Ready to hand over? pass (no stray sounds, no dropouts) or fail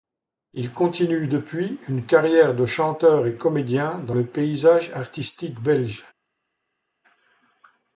pass